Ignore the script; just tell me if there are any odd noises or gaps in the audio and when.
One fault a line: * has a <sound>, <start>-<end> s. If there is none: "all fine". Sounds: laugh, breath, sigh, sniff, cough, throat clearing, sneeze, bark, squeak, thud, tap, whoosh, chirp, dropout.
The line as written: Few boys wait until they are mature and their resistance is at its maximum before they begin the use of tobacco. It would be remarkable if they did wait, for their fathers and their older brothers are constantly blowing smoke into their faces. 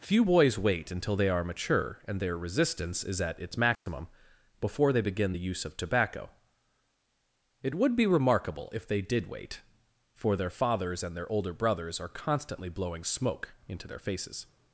* has a dropout, 3.8-3.9 s